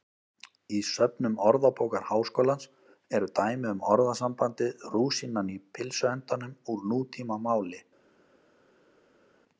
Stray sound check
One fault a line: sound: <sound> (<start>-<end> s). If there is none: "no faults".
no faults